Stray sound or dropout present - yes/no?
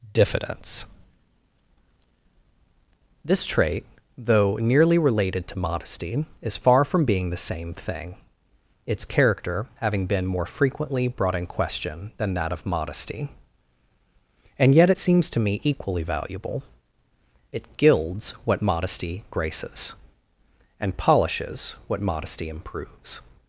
no